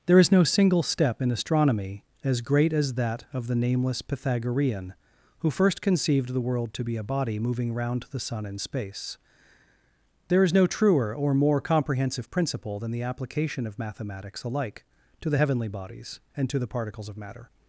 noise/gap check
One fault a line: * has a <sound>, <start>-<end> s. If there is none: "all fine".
all fine